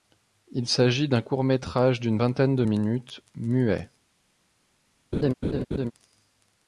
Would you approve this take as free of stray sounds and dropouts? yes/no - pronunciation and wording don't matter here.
no